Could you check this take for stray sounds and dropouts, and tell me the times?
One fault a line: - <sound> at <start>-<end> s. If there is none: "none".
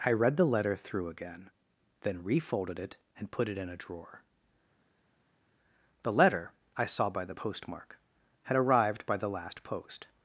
none